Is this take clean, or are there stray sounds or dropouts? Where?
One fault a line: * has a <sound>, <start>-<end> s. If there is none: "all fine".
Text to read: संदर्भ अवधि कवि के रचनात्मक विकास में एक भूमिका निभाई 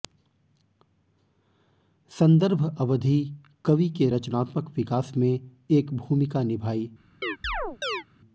* has a chirp, 7.2-8.0 s